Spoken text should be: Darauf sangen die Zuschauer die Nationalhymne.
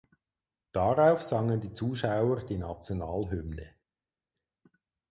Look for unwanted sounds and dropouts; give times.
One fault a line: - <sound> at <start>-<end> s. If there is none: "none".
none